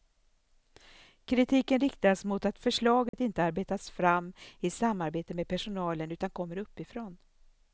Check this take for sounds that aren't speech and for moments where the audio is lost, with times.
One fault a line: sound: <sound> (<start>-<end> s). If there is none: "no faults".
sound: dropout (3.1-3.1 s)